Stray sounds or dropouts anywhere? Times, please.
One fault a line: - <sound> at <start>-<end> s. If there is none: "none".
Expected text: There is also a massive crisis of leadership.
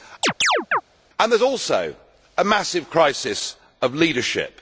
- chirp at 0.2-0.8 s